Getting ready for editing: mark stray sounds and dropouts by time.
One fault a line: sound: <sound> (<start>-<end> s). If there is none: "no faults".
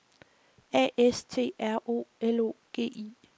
no faults